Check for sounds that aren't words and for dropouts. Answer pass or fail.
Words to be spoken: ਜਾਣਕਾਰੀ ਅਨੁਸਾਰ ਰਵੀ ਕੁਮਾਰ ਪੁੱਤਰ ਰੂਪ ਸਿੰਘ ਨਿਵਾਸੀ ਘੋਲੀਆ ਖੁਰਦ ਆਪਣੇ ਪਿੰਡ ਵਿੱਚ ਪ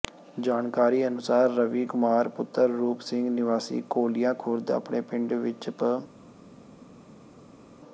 pass